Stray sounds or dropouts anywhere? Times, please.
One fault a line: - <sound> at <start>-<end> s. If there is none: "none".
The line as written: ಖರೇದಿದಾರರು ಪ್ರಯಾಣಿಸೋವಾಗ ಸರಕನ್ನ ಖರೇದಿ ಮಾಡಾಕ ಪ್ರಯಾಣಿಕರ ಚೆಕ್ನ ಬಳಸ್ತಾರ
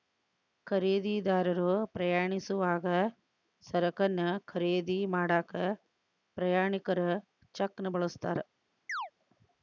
- chirp at 8.9-9.1 s